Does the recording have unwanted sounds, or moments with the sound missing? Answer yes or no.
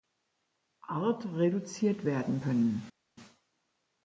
no